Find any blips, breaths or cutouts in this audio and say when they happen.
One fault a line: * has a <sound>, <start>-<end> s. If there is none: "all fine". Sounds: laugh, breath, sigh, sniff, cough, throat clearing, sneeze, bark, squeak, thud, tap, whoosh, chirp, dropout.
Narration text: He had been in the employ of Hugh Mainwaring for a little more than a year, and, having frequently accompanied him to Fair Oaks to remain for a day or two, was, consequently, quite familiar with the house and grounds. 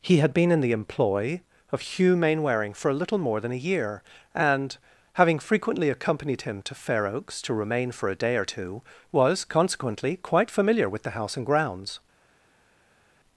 all fine